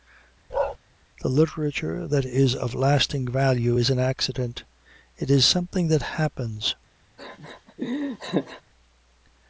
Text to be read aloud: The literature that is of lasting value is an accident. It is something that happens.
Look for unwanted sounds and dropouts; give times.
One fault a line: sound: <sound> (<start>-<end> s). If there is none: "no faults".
sound: bark (0.5-0.8 s)
sound: laugh (7.2-8.6 s)